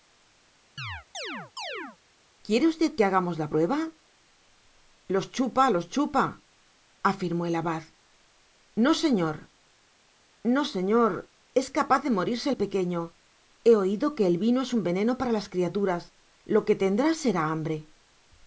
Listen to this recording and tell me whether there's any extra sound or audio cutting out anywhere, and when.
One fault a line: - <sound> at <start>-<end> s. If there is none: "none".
- chirp at 0.8-2.0 s